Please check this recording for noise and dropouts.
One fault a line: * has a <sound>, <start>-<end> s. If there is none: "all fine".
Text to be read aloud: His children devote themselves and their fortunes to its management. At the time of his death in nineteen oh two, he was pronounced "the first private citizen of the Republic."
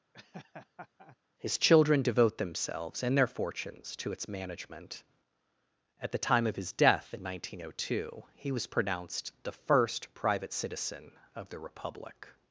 * has a laugh, 0.1-1.2 s